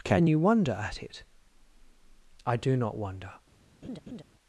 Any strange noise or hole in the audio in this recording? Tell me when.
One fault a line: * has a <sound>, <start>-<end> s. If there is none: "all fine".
* has a laugh, 3.8-4.2 s